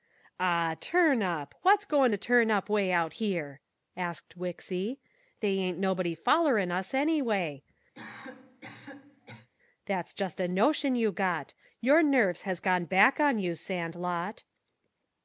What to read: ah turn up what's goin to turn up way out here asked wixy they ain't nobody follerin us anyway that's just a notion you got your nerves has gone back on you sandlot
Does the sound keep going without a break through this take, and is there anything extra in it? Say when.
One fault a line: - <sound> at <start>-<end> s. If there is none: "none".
- cough at 7.9-9.5 s